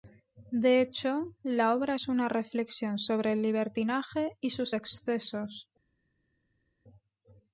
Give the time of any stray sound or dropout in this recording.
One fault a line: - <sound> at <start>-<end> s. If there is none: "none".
none